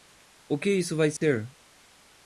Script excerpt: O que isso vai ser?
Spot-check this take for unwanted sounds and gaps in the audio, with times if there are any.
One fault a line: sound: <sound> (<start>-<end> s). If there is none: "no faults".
sound: dropout (1.2-1.2 s)